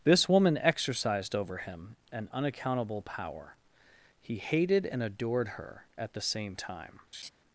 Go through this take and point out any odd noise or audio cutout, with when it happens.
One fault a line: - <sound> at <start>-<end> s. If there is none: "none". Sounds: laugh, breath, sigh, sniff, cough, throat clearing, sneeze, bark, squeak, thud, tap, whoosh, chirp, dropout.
- laugh at 7.1-7.3 s